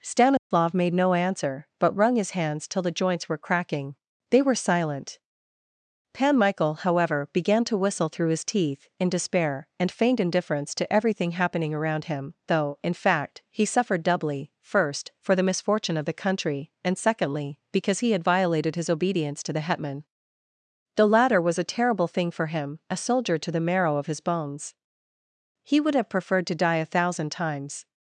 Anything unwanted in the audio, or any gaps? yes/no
yes